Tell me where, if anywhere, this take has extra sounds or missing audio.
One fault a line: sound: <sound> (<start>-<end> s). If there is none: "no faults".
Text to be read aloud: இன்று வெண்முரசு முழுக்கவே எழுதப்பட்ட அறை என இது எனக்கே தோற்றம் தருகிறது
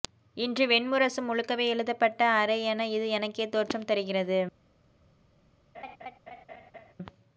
sound: laugh (5.7-6.9 s)